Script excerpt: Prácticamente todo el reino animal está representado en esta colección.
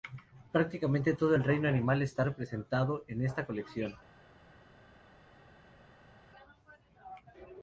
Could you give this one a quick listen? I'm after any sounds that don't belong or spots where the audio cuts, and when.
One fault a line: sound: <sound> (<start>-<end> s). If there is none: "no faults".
no faults